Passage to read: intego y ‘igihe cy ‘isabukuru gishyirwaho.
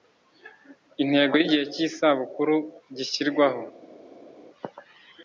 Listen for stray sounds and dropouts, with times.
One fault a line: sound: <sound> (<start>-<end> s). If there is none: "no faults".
no faults